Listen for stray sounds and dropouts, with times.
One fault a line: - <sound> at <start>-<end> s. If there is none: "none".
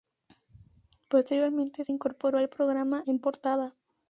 none